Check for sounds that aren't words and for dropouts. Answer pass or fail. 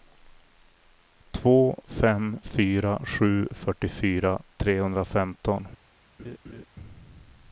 fail